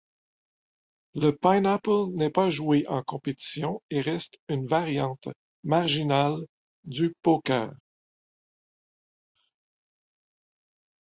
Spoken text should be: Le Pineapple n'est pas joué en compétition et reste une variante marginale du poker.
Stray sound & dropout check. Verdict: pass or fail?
pass